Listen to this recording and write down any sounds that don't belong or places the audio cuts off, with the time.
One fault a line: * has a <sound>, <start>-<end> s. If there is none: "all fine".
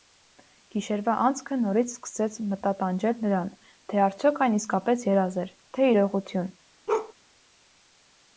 * has a bark, 6.9-7.1 s